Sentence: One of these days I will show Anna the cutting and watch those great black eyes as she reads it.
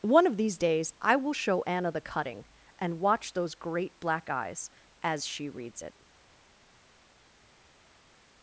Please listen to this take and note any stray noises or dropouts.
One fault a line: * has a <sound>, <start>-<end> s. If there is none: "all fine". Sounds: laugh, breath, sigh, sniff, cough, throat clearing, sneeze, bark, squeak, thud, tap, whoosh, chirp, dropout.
all fine